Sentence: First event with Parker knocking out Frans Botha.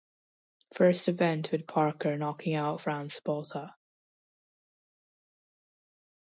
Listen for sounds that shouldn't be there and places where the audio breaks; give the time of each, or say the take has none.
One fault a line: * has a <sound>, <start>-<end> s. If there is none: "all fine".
all fine